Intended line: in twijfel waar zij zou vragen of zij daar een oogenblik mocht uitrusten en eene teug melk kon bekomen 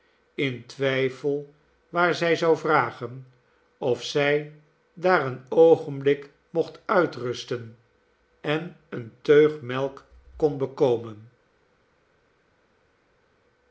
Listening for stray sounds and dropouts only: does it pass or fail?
pass